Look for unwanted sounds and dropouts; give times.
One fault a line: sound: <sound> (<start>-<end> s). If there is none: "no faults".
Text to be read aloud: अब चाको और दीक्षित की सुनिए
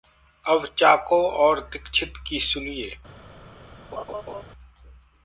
sound: laugh (3.9-4.4 s)